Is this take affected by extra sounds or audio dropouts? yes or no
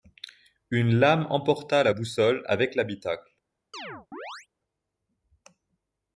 yes